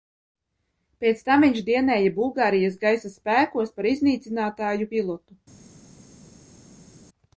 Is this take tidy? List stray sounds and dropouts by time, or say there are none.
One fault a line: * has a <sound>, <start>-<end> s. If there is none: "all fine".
all fine